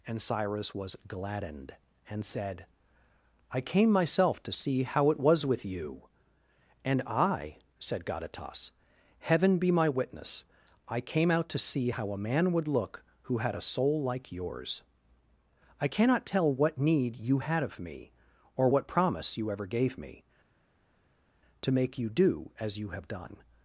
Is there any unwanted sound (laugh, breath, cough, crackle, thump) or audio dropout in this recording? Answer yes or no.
no